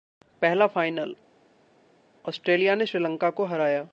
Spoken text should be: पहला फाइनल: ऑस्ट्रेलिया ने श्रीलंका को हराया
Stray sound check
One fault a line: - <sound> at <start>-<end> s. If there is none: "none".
none